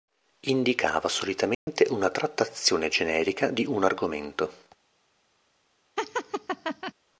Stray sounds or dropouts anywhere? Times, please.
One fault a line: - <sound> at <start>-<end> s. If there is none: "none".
- dropout at 1.5-1.7 s
- laugh at 6.0-6.9 s